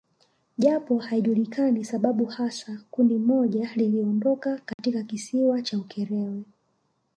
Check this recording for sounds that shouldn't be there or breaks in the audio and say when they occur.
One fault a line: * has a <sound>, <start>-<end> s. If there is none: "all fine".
* has a dropout, 4.7-4.8 s